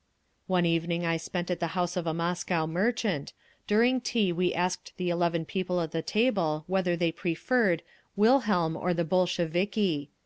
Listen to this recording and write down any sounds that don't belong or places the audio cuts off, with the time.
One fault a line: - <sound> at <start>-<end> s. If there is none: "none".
none